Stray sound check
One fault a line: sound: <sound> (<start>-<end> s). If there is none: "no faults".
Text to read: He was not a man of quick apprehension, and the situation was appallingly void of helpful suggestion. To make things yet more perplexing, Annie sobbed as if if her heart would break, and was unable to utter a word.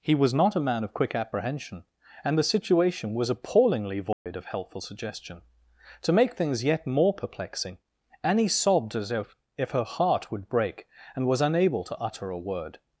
sound: dropout (4.1-4.3 s)